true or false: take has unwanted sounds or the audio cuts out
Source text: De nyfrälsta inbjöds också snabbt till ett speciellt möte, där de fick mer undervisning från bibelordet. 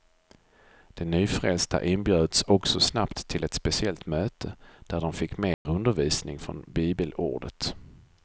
true